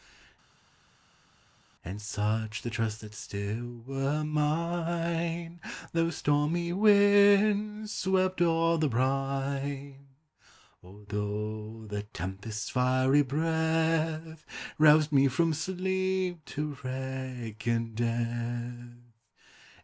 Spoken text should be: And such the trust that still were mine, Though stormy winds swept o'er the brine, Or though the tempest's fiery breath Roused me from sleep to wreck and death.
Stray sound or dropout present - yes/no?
no